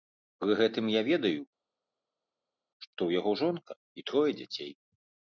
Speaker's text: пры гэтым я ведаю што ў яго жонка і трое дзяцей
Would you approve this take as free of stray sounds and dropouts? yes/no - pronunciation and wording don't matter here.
yes